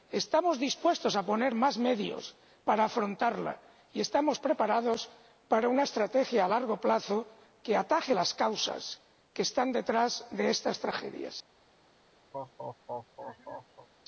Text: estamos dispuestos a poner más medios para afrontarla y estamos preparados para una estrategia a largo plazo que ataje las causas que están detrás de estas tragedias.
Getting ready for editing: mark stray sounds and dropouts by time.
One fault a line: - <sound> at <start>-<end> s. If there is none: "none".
- laugh at 12.3-13.9 s